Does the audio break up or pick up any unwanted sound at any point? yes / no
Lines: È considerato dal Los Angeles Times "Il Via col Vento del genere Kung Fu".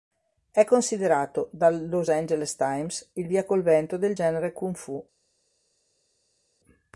no